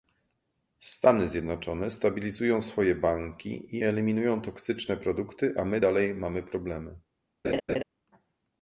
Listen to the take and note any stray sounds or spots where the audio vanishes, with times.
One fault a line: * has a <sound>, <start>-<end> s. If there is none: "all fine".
* has a laugh, 7.4-7.8 s